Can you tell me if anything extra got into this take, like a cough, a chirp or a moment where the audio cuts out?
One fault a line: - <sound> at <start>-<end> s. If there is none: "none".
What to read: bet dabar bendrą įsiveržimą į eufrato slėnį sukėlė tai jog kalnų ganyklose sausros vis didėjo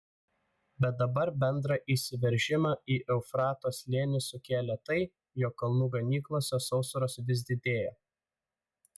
none